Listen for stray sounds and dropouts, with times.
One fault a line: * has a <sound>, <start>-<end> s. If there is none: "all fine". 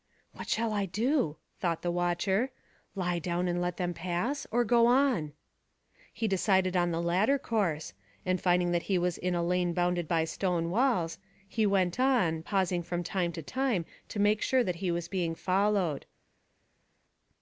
all fine